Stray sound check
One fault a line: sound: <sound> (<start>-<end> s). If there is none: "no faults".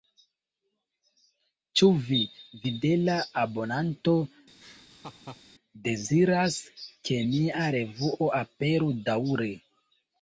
sound: laugh (4.6-5.4 s)